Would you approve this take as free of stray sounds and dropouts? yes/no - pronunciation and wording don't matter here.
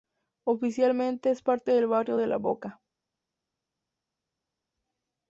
yes